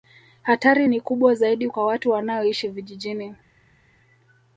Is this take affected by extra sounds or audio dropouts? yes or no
no